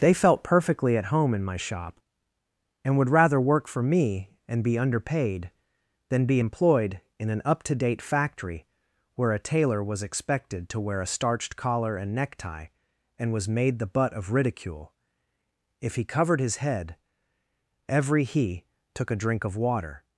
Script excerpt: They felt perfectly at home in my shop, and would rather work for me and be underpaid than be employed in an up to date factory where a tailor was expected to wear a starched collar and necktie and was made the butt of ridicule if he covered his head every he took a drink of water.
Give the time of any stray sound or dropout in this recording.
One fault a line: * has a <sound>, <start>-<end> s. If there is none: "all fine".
all fine